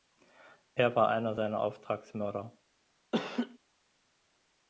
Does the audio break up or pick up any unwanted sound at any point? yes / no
yes